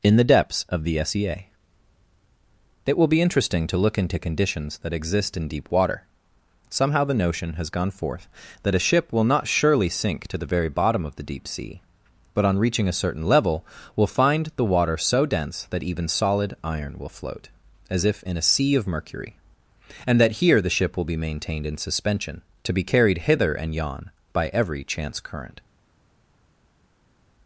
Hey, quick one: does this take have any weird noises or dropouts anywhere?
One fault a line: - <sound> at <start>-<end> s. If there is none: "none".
none